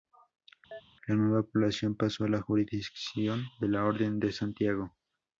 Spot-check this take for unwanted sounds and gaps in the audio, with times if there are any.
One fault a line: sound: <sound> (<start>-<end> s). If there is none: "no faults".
sound: chirp (0.7-0.8 s)